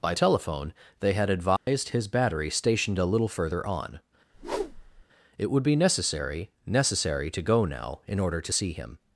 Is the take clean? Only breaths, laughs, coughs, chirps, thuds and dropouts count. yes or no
no